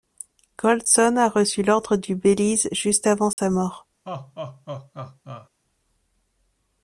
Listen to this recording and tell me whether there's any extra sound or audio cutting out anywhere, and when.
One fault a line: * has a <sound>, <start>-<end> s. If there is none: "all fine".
* has a dropout, 3.3-3.4 s
* has a laugh, 4.1-5.5 s